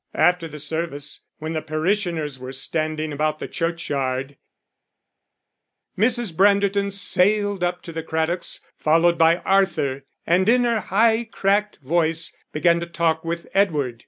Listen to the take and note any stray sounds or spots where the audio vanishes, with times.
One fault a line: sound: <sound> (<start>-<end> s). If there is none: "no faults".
no faults